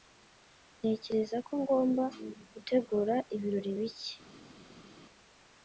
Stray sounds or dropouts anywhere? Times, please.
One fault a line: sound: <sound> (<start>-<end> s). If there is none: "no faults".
no faults